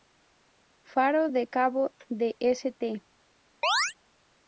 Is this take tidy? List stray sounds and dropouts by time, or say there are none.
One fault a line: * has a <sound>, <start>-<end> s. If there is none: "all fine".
* has a chirp, 3.6-3.9 s